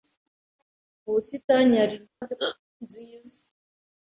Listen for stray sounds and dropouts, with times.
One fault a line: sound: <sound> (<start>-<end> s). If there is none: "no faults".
sound: dropout (2.1-2.2 s)